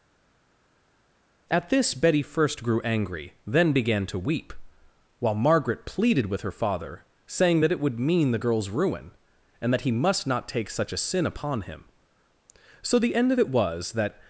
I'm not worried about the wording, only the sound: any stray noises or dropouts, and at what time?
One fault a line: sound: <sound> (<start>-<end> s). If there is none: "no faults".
no faults